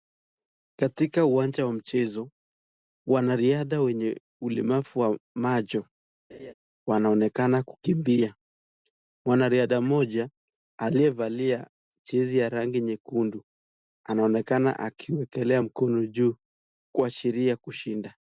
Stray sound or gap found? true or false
true